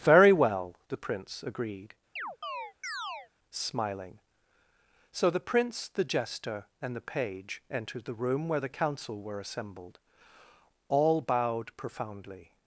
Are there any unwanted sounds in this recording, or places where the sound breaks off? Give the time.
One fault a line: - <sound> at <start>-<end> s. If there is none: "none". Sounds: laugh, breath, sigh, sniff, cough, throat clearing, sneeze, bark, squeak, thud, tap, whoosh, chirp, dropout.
- chirp at 2.2-3.3 s